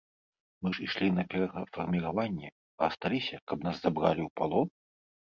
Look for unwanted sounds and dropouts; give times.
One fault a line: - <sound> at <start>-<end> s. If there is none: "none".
none